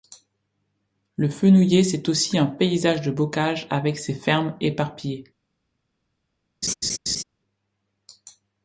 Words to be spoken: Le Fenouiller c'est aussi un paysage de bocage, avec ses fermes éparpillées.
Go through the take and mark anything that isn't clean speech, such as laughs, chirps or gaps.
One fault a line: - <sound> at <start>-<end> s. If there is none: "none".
- laugh at 6.6-7.2 s